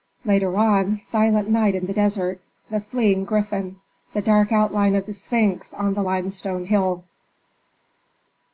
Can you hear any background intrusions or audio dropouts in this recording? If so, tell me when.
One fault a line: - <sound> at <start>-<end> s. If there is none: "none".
none